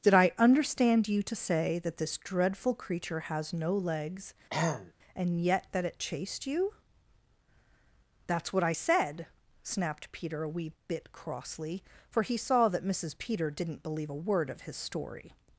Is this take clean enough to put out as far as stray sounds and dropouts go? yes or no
no